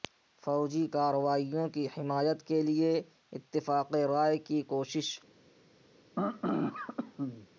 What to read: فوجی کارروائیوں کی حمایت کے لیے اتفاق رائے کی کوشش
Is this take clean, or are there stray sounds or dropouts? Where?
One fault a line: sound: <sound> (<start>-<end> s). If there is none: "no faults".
sound: throat clearing (6.2-7.5 s)